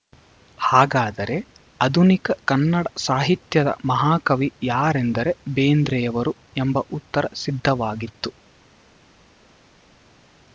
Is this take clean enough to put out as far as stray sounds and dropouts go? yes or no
yes